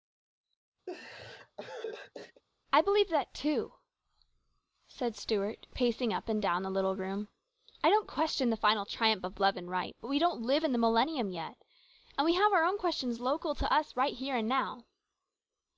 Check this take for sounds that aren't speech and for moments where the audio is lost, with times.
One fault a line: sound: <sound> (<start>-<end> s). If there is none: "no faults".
sound: laugh (0.9-2.4 s)